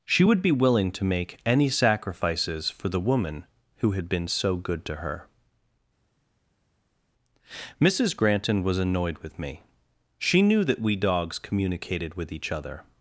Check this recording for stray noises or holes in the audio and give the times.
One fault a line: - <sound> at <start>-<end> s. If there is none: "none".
none